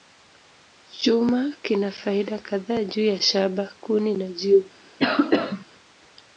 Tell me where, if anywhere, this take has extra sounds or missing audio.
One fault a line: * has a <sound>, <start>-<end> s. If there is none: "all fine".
* has a cough, 5.0-5.7 s